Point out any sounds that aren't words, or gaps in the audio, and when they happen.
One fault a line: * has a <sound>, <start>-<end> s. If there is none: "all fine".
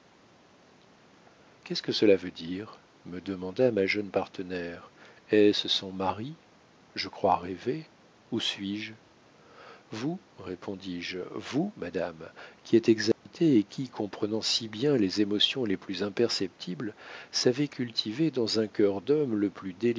* has a dropout, 13.1-13.3 s